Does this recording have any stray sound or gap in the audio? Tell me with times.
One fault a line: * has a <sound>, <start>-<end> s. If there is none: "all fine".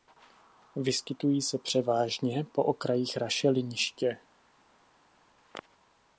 all fine